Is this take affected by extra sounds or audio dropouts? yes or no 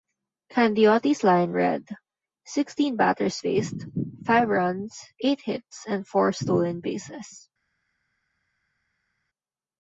no